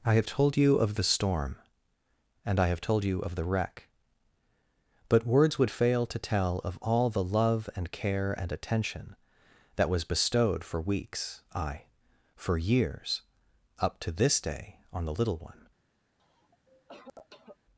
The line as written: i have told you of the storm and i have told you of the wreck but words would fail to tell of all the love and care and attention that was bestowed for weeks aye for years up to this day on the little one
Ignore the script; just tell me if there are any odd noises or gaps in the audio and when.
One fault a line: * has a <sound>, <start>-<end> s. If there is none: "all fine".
* has a cough, 16.2-17.6 s